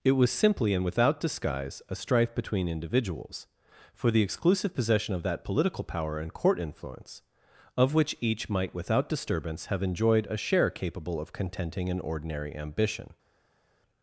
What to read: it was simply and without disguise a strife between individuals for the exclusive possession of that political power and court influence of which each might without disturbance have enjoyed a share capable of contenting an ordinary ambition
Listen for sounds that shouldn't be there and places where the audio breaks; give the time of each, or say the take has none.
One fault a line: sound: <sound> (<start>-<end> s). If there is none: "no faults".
no faults